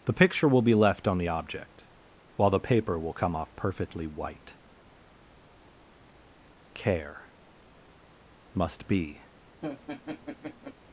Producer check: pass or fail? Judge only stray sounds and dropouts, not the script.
fail